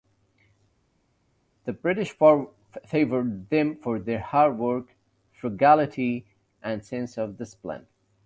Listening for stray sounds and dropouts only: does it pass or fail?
pass